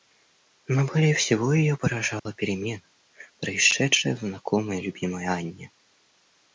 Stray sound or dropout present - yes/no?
yes